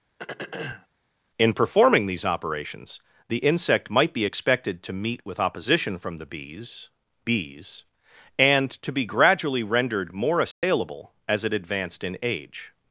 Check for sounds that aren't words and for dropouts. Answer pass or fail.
fail